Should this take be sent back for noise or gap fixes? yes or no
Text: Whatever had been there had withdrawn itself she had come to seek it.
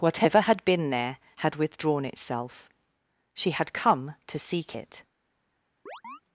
yes